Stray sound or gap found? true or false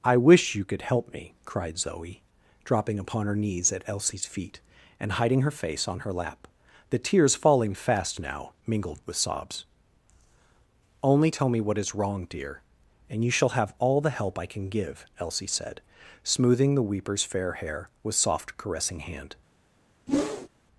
true